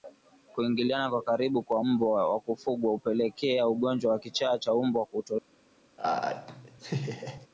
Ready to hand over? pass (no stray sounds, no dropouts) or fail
fail